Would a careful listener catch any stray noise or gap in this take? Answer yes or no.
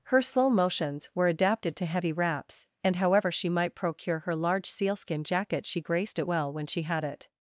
no